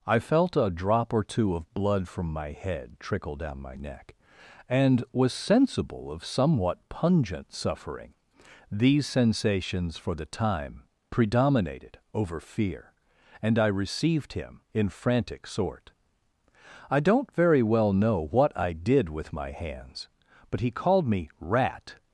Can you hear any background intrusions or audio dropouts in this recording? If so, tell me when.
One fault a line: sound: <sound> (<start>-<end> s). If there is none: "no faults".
no faults